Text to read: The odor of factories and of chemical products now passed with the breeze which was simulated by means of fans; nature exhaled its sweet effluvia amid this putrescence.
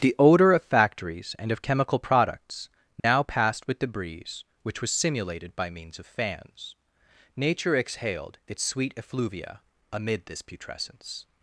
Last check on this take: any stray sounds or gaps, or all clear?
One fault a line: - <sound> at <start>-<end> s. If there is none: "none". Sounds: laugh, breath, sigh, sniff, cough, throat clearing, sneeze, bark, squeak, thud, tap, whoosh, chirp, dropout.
- dropout at 3.0-3.0 s